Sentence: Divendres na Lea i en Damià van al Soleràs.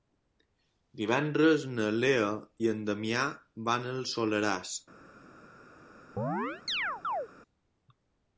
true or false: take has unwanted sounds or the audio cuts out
true